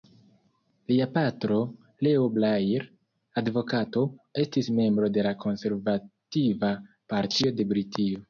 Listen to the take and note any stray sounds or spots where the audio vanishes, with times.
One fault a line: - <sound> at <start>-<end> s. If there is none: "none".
none